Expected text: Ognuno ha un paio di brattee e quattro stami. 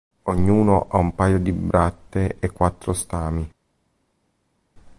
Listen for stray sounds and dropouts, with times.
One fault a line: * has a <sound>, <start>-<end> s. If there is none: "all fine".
all fine